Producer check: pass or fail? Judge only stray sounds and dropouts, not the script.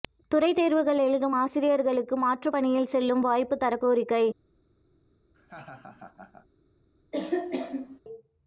fail